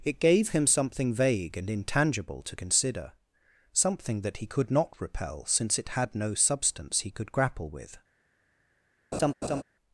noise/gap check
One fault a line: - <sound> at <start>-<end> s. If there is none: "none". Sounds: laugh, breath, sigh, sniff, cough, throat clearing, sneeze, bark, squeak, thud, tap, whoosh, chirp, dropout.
- laugh at 9.1-9.6 s